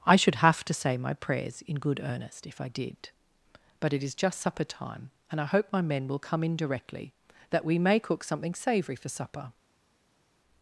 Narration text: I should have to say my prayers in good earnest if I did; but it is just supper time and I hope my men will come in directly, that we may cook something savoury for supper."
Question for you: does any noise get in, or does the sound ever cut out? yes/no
no